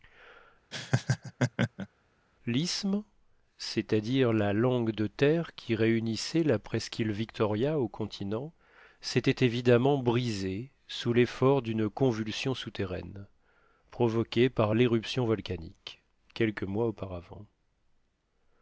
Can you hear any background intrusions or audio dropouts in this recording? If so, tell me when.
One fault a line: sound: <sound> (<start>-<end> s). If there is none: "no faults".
sound: laugh (0.7-1.9 s)